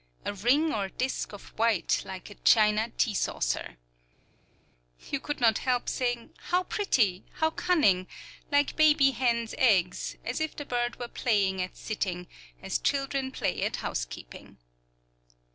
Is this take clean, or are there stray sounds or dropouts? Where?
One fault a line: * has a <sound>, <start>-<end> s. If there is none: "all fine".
all fine